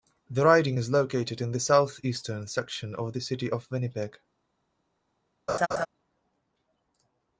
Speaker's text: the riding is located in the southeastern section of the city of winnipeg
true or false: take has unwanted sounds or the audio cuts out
true